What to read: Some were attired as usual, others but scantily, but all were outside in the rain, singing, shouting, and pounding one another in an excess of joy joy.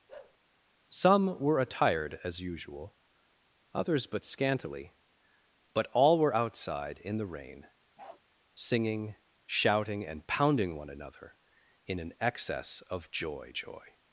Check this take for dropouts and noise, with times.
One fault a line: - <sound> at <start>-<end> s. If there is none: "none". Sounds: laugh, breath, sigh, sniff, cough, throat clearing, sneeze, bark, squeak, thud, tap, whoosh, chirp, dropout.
- bark at 0.1-0.4 s
- bark at 8.0-8.2 s